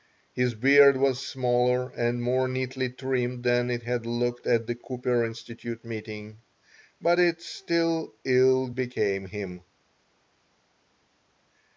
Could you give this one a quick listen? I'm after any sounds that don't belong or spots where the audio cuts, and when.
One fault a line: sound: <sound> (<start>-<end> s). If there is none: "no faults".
no faults